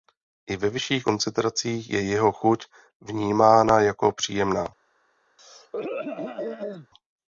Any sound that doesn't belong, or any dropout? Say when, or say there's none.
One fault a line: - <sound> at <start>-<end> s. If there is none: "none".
- throat clearing at 5.4-6.9 s